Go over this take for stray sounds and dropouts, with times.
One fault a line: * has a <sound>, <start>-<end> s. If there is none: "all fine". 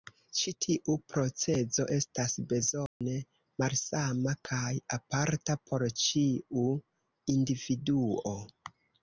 * has a dropout, 2.9-3.0 s